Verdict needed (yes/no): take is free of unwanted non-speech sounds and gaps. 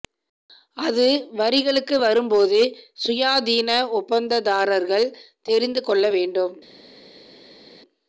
yes